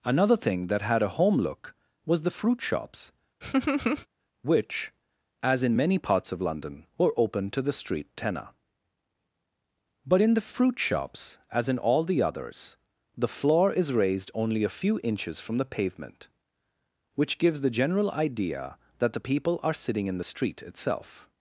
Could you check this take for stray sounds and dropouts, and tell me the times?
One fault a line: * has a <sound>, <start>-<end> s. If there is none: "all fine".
* has a laugh, 3.4-4.1 s